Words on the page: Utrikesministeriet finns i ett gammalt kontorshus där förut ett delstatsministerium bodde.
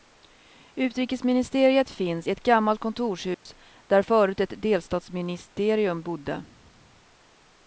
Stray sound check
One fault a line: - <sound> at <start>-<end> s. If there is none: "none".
- dropout at 3.3-3.5 s